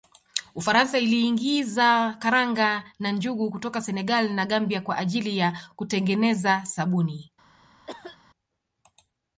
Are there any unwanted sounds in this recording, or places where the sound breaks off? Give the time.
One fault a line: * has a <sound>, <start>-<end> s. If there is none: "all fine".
* has a cough, 7.9-8.2 s